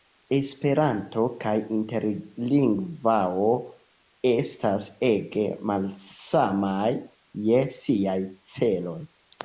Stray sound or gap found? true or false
false